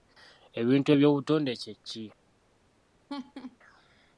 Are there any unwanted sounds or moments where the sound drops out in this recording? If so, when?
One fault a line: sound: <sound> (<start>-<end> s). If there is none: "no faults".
sound: laugh (3.1-3.6 s)